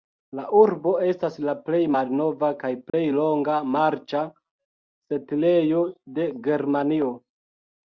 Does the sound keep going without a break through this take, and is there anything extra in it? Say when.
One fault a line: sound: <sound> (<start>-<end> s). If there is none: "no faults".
sound: dropout (2.9-2.9 s)